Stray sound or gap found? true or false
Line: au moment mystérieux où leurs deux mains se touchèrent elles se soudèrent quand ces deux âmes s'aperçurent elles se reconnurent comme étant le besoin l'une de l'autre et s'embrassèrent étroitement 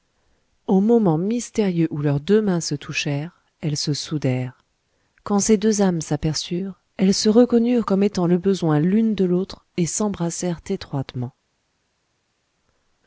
false